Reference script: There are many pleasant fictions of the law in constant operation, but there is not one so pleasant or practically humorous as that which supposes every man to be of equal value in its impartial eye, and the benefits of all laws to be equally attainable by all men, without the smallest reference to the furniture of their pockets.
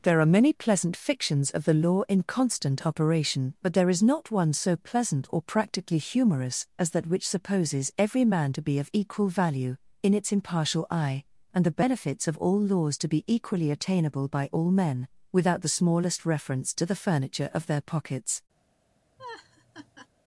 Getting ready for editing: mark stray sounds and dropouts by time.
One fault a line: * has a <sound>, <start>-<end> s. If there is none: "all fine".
* has a laugh, 19.2-20.1 s